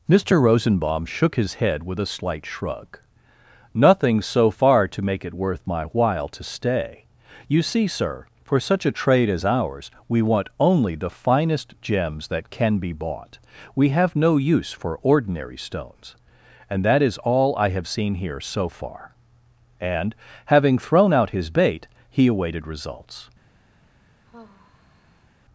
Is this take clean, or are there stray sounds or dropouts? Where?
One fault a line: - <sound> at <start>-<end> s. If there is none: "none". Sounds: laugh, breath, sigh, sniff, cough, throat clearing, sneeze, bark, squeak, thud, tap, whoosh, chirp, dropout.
- sigh at 24.3-25.3 s